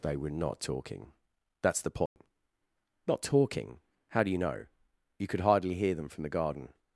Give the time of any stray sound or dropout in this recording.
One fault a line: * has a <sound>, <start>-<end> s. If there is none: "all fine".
* has a dropout, 2.1-2.2 s